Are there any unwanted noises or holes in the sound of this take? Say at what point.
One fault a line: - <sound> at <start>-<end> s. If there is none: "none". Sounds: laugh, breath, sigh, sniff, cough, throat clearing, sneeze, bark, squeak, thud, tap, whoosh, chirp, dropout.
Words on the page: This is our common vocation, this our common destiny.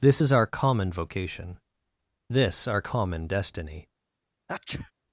- sneeze at 4.5-4.9 s